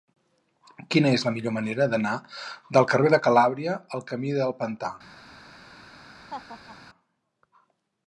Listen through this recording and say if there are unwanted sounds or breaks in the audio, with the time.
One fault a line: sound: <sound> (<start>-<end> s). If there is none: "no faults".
sound: laugh (6.3-6.8 s)